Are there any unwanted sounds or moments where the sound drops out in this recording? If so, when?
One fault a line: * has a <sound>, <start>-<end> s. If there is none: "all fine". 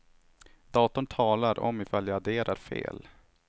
all fine